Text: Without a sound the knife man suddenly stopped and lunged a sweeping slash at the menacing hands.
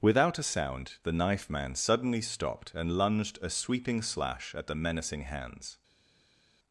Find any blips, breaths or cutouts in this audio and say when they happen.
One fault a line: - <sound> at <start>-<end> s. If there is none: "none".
none